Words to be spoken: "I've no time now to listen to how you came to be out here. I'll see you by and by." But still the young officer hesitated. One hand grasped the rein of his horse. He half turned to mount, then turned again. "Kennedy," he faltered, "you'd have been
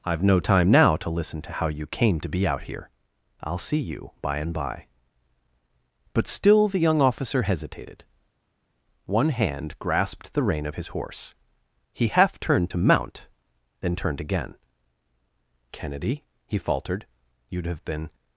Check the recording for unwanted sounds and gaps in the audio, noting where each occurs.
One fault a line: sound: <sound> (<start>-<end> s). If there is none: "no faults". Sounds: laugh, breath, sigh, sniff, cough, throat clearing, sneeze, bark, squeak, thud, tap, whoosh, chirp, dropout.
no faults